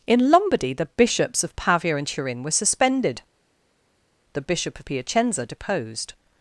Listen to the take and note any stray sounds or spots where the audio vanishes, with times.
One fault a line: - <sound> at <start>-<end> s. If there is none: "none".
none